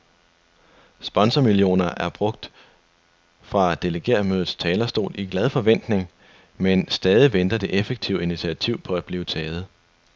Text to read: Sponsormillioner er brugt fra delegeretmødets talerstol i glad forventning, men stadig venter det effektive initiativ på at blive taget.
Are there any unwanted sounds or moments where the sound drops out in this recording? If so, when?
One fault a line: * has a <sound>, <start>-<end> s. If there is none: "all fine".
all fine